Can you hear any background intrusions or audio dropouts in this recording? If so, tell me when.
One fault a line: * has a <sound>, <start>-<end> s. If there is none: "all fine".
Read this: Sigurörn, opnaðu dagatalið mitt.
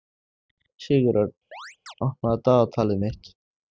* has a chirp, 1.5-1.9 s